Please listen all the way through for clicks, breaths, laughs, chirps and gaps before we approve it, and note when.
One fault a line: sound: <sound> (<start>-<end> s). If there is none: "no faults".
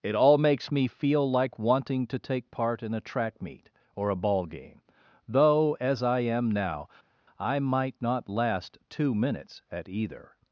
no faults